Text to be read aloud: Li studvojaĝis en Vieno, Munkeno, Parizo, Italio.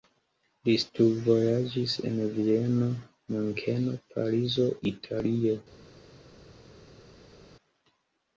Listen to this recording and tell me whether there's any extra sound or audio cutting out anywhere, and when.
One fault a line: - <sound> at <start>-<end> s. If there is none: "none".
none